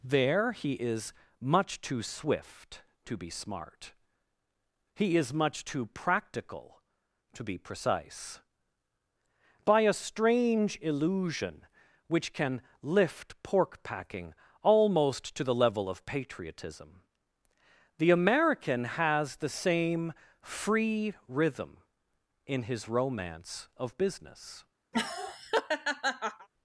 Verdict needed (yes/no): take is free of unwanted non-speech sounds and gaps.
no